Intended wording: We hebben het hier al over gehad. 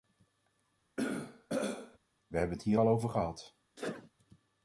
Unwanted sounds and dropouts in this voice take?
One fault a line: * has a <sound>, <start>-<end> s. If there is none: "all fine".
* has a throat clearing, 1.0-2.0 s
* has a sneeze, 3.8-4.1 s